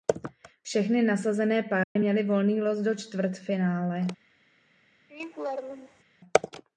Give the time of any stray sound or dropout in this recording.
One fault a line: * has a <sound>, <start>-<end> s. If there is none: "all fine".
* has a dropout, 1.8-2.0 s
* has a laugh, 5.1-6.0 s